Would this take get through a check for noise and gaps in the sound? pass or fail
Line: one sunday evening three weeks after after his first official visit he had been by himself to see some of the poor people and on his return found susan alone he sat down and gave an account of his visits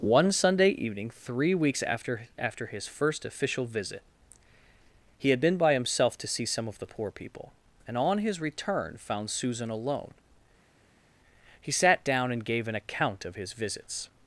pass